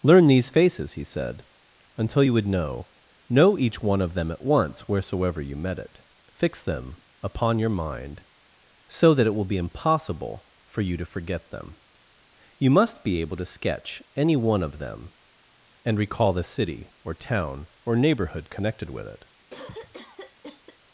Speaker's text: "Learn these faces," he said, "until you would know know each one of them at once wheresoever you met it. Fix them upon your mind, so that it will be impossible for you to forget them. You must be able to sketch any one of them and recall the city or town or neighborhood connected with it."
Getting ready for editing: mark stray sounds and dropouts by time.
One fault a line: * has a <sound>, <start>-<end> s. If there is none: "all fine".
* has a cough, 19.5-20.8 s